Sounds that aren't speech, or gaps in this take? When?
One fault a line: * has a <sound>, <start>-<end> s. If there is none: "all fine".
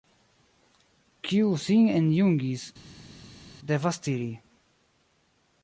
all fine